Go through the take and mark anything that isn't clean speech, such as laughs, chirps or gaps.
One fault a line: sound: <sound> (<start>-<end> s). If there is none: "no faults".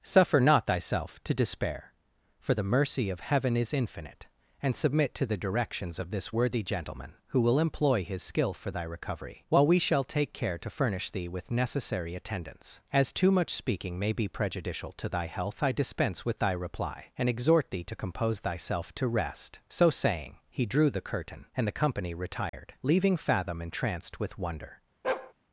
sound: dropout (22.5-22.5 s)
sound: bark (25.0-25.3 s)